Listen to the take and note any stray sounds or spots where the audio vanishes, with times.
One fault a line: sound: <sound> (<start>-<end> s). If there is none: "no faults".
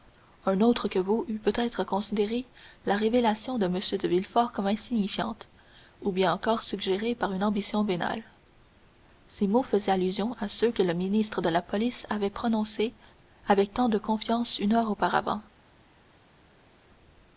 no faults